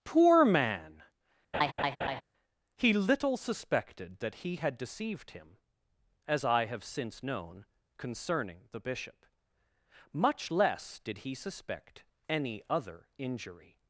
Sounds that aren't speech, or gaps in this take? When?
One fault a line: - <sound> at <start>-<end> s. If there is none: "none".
- laugh at 1.5-2.2 s